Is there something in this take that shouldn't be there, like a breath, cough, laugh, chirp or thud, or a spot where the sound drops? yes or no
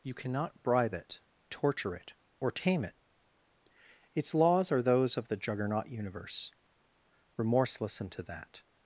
no